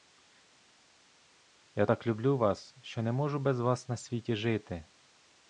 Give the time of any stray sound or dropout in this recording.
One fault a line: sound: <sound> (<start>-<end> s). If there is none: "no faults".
no faults